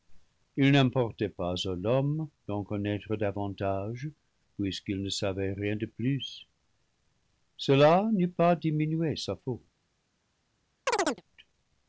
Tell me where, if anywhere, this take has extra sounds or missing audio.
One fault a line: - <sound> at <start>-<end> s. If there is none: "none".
- chirp at 10.9-11.2 s